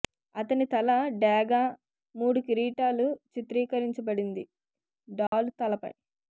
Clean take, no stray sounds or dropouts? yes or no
no